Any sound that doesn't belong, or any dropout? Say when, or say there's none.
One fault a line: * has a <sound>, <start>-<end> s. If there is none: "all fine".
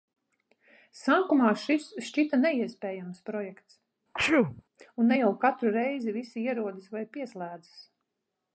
* has a sneeze, 4.1-4.6 s